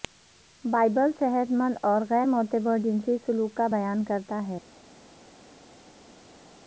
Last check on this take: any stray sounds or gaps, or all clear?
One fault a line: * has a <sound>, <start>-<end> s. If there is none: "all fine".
all fine